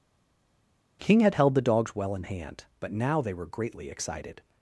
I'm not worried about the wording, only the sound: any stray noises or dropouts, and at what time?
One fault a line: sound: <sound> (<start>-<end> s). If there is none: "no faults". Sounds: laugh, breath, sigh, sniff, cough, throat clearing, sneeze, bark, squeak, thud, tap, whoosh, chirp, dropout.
no faults